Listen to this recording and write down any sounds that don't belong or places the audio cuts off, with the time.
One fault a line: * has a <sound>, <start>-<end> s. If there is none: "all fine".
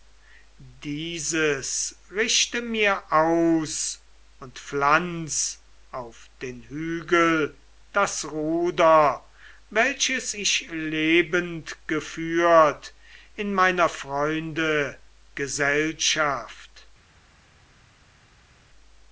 all fine